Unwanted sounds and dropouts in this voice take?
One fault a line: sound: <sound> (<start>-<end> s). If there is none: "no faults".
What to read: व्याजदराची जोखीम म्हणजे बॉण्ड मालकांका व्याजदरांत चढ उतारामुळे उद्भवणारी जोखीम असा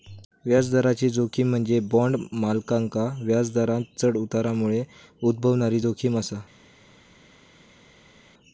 no faults